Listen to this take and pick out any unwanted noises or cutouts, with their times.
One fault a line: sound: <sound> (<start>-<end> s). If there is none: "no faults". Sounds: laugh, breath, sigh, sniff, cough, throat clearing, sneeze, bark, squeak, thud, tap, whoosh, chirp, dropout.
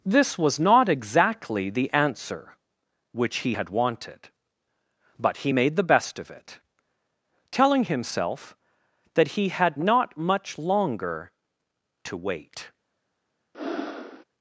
sound: breath (13.5-14.2 s)